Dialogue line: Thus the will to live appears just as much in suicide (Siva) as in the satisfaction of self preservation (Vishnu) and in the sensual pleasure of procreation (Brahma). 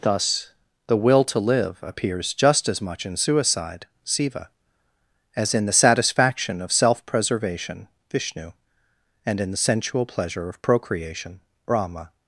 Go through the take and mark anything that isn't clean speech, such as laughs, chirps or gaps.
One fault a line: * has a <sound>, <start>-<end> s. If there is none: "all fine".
all fine